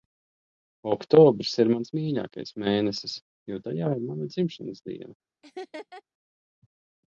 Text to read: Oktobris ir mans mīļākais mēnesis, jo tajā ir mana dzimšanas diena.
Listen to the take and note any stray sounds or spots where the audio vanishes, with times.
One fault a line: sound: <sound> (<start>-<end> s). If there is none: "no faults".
sound: laugh (5.4-6.0 s)